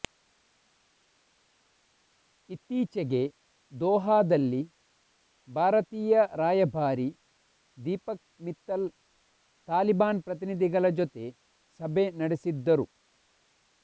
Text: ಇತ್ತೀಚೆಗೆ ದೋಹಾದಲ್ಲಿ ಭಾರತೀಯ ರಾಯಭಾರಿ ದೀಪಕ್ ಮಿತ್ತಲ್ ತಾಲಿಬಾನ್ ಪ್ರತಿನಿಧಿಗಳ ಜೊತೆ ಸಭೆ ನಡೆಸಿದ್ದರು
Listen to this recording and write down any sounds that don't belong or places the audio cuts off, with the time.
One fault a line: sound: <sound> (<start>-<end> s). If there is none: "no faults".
no faults